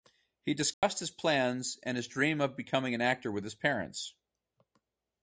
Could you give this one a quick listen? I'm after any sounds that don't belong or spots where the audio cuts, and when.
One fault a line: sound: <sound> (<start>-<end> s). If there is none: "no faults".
sound: dropout (0.7-0.8 s)